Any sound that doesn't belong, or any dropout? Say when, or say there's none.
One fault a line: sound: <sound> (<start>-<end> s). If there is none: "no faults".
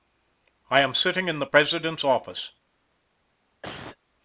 sound: cough (3.6-4.0 s)